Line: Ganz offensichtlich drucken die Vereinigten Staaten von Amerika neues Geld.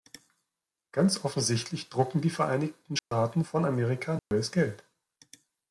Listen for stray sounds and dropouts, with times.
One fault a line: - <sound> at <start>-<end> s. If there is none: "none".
- dropout at 3.0-3.1 s
- dropout at 4.2-4.3 s